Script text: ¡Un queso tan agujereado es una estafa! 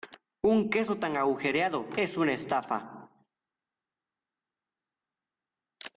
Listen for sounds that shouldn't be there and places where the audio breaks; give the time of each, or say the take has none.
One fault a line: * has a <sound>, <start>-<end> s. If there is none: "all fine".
all fine